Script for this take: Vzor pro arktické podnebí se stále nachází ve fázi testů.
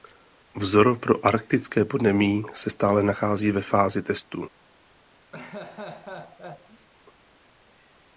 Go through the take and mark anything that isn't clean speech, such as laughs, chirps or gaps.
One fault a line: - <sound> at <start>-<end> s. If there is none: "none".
- laugh at 5.3-6.9 s